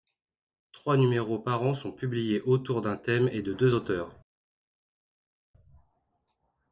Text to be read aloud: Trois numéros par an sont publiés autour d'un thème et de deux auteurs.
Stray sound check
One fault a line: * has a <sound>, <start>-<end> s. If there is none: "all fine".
all fine